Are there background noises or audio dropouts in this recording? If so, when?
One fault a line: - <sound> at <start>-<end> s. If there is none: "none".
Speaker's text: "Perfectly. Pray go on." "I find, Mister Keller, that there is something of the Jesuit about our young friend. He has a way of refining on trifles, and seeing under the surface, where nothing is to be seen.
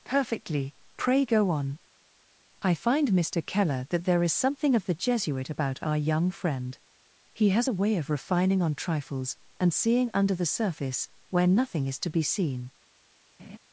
- laugh at 13.4-13.6 s